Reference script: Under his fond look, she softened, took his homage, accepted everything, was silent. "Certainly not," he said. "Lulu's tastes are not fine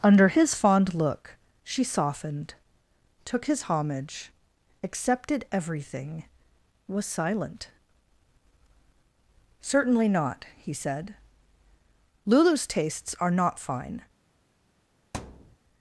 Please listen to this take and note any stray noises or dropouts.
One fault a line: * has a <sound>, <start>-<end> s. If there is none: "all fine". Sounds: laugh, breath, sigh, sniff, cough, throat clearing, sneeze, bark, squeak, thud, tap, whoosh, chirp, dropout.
* has a thud, 15.1-15.6 s